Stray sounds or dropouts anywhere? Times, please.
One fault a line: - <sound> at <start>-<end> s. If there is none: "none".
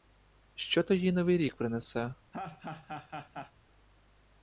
- laugh at 2.3-3.5 s